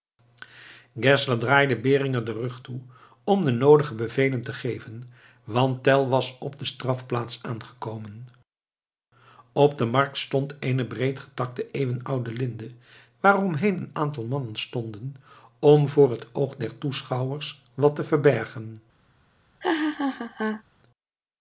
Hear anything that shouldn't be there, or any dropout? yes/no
yes